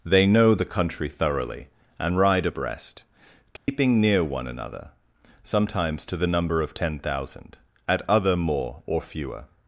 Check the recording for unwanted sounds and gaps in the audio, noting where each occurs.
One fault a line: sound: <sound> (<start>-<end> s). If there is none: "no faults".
sound: dropout (3.6-3.7 s)